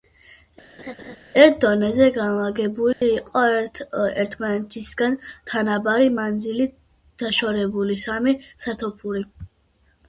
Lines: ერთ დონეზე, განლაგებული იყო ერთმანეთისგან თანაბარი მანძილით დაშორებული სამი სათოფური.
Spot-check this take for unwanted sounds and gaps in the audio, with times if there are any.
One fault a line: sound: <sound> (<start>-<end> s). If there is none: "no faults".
sound: laugh (0.8-1.2 s)
sound: dropout (2.9-3.0 s)